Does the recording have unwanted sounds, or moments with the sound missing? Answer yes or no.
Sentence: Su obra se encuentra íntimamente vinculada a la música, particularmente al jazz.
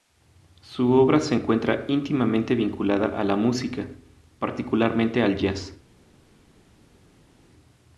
no